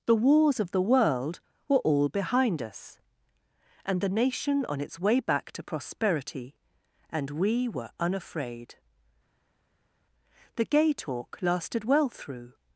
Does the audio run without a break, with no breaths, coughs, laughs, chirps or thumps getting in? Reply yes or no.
yes